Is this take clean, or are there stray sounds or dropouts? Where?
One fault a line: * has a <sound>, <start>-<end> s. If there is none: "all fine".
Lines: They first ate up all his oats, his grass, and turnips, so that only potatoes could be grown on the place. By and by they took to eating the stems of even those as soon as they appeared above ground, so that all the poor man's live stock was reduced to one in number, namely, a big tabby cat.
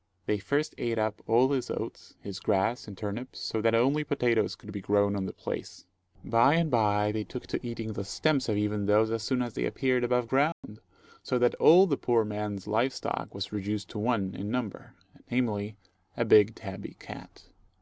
* has a dropout, 10.5-10.6 s